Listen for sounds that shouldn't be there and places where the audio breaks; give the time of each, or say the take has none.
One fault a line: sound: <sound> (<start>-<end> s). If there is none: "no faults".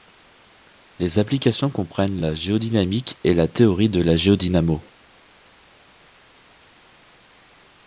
no faults